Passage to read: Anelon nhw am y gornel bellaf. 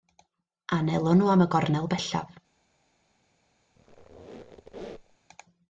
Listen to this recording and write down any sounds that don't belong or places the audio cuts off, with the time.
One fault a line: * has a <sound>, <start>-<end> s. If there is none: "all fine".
* has a squeak, 3.8-5.2 s